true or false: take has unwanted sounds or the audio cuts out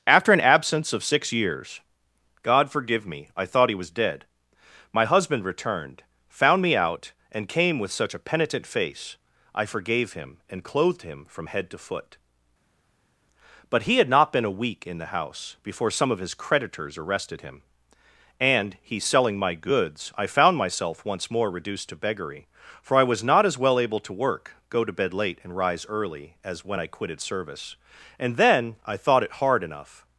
false